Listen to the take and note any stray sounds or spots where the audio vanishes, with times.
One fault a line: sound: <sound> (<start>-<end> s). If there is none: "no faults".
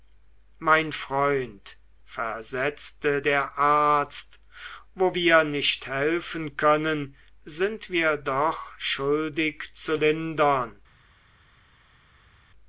no faults